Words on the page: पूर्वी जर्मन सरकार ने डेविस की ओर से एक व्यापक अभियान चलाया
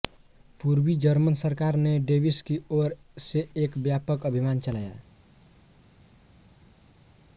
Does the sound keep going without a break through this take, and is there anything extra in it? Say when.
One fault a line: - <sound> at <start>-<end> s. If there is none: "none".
none